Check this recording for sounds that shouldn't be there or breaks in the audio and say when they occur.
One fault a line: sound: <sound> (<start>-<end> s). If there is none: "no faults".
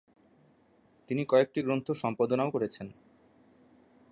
no faults